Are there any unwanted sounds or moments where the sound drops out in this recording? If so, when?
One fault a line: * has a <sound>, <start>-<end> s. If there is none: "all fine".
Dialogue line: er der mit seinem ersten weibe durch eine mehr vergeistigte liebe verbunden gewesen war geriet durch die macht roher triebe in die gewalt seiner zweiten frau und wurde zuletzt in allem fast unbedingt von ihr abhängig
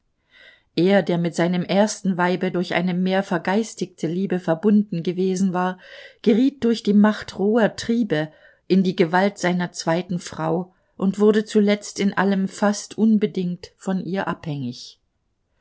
all fine